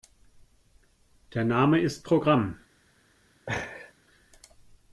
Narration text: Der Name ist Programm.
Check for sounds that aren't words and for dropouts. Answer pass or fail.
fail